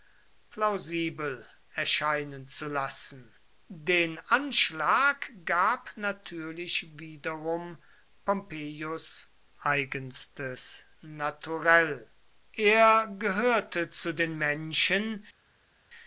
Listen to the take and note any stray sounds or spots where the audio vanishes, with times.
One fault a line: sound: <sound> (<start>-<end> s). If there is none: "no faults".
no faults